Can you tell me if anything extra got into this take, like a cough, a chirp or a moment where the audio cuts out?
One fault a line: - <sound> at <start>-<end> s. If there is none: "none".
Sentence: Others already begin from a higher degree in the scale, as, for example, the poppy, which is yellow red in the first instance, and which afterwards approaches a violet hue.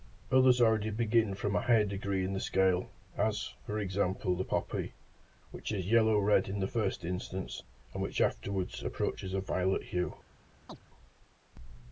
- chirp at 10.7-10.8 s